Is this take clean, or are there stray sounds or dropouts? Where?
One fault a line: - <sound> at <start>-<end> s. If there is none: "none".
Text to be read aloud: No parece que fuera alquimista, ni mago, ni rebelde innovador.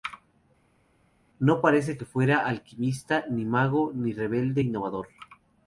none